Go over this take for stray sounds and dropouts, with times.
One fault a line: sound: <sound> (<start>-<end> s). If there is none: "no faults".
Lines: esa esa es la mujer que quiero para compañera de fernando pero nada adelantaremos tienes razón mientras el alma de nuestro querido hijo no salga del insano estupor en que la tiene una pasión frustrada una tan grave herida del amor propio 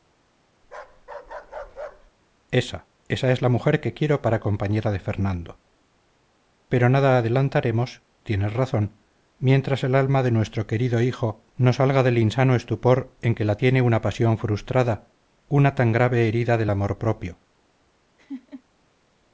sound: bark (0.6-2.1 s)
sound: laugh (18.2-18.6 s)